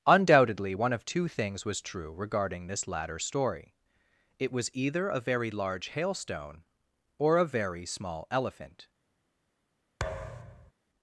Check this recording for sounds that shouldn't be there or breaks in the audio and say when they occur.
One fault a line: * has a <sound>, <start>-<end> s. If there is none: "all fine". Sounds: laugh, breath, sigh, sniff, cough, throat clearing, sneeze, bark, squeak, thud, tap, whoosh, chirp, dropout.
* has a thud, 10.0-10.7 s